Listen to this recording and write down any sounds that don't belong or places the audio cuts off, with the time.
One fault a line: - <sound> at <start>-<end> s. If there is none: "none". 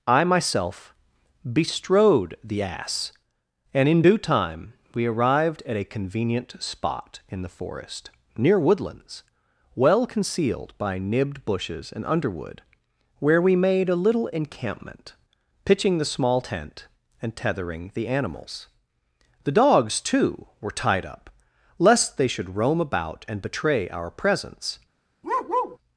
- bark at 25.2-25.8 s